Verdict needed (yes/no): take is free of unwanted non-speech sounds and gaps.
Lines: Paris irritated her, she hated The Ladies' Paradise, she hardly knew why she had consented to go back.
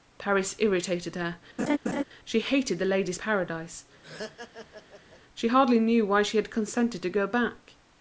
no